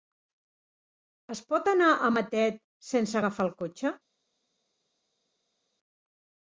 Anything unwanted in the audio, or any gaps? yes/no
no